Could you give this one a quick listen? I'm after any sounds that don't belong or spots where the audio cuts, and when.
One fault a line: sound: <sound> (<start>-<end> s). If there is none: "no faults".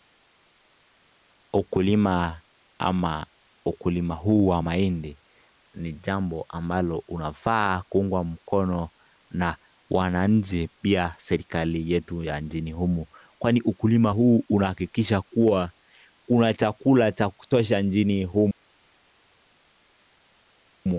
no faults